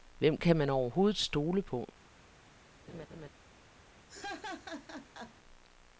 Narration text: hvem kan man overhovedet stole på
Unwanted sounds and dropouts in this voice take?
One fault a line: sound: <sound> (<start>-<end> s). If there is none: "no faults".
sound: laugh (2.9-3.3 s)
sound: laugh (4.1-5.4 s)